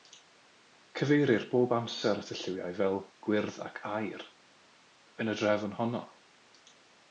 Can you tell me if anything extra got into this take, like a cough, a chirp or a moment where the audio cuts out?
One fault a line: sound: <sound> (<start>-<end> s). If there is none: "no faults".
no faults